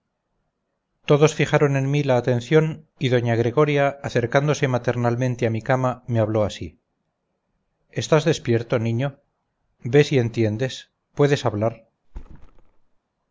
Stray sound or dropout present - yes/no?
yes